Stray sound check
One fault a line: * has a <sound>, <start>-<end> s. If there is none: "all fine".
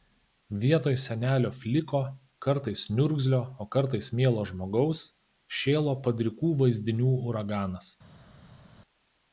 all fine